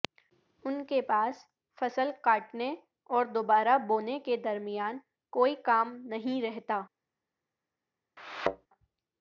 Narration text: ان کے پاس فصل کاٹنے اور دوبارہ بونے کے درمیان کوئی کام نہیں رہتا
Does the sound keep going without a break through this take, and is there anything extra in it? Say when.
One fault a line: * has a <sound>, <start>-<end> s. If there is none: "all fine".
* has a thud, 8.2-8.7 s